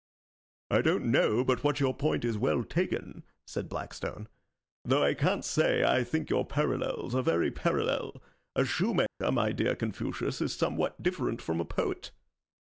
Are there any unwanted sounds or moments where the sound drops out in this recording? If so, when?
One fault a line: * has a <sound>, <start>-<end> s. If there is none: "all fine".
* has a dropout, 9.1-9.2 s